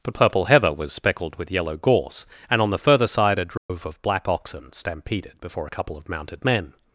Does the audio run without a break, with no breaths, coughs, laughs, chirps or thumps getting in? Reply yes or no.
no